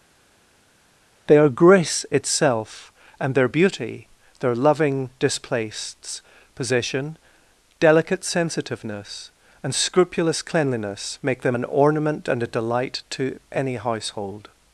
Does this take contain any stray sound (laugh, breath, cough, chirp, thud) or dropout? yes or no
no